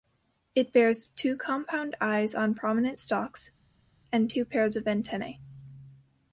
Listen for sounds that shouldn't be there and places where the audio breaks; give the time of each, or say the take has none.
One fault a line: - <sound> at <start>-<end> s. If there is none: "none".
none